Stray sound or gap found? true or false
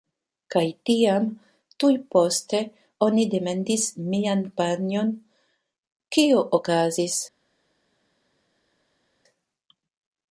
false